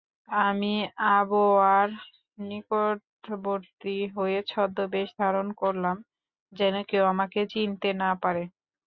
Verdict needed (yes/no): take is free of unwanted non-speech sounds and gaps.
yes